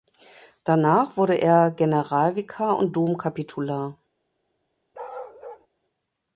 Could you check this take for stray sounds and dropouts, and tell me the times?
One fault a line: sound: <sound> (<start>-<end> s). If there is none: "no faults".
sound: bark (4.9-5.7 s)